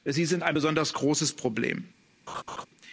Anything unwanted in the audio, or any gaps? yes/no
yes